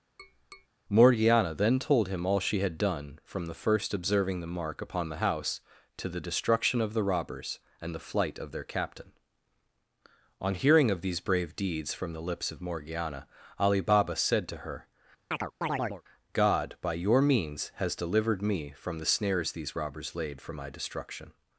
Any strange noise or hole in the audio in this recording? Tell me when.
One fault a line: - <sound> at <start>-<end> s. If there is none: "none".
- tap at 0.2-0.7 s
- chirp at 15.3-16.0 s